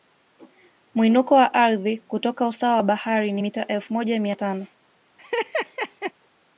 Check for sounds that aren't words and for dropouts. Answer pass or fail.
fail